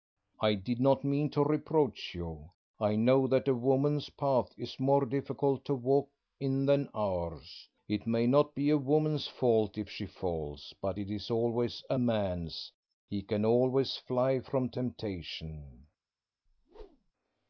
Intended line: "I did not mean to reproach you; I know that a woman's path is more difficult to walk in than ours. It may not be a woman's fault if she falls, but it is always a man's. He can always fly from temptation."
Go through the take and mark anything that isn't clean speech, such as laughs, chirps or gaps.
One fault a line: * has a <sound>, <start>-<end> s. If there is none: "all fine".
* has a whoosh, 16.5-17.1 s